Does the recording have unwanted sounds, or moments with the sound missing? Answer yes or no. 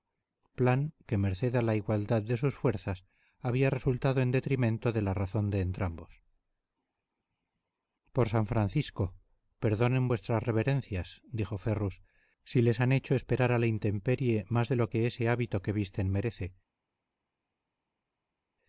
no